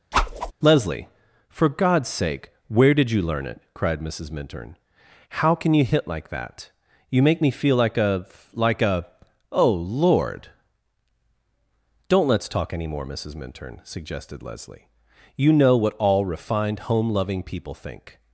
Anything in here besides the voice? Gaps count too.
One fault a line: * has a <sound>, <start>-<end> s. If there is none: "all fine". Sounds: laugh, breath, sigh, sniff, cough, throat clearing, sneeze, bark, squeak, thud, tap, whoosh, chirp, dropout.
* has a whoosh, 0.1-0.5 s